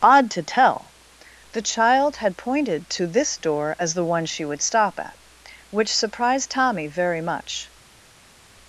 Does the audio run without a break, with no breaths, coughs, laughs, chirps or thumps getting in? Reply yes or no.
yes